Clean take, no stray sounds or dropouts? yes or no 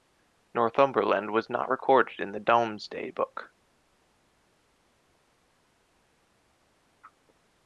yes